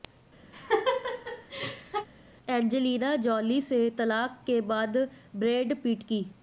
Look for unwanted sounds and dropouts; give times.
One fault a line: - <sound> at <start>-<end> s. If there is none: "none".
- laugh at 0.5-2.1 s